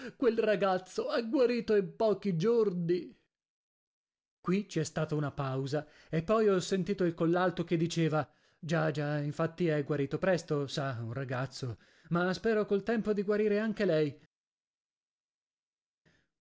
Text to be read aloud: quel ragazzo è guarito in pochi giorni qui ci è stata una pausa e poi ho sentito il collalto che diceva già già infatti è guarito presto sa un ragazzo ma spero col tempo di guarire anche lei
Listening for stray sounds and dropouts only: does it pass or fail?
pass